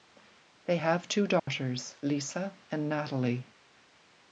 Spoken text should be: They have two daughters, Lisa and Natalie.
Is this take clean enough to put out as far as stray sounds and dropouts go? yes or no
no